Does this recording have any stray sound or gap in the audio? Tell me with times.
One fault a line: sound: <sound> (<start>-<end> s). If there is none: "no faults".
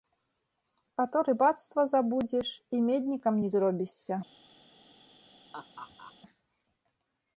sound: laugh (5.5-6.1 s)